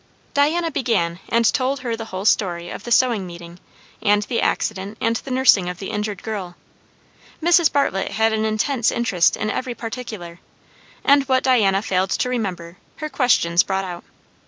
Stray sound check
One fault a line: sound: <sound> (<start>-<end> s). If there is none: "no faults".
no faults